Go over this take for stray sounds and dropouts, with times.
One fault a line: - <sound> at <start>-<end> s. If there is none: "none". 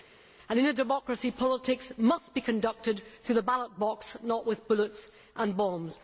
none